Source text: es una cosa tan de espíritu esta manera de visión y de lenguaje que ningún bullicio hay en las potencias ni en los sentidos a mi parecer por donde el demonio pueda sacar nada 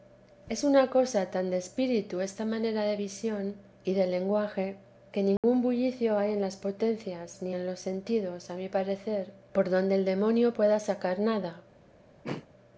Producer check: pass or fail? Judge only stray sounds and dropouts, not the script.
fail